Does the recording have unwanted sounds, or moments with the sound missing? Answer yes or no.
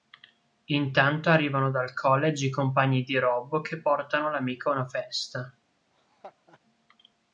yes